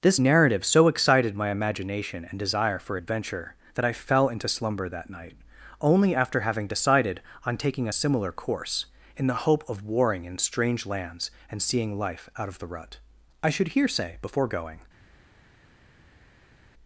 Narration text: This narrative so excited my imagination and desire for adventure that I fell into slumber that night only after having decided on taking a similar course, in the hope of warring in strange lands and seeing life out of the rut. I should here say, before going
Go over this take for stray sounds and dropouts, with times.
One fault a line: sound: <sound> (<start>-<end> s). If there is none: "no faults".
no faults